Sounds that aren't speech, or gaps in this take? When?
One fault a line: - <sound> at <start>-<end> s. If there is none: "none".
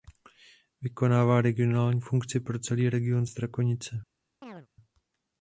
- chirp at 4.4-4.7 s